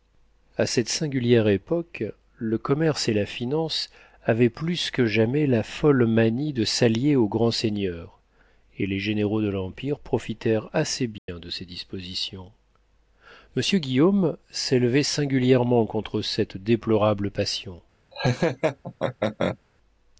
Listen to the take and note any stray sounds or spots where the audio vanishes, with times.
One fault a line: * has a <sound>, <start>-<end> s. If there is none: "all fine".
* has a dropout, 11.2-11.3 s
* has a laugh, 18.1-19.6 s